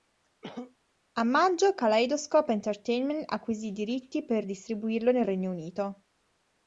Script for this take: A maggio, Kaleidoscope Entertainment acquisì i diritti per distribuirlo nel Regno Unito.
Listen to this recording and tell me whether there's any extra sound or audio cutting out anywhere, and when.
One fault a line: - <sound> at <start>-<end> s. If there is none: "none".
- cough at 0.4-0.8 s